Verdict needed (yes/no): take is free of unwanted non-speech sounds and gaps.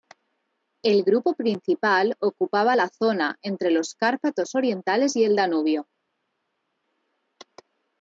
yes